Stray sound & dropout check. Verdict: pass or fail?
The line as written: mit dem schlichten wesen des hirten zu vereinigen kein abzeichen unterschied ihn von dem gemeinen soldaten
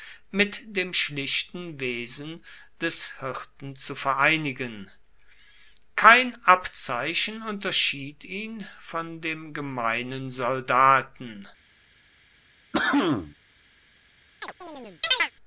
fail